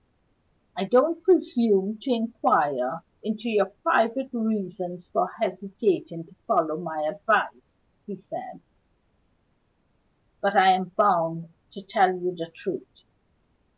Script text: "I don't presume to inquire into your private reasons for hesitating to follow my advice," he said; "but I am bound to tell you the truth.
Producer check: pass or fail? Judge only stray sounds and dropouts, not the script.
pass